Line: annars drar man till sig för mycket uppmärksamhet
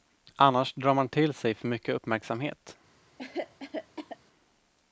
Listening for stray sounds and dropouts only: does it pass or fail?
fail